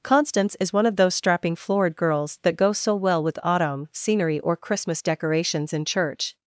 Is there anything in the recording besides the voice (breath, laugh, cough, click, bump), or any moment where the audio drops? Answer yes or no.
no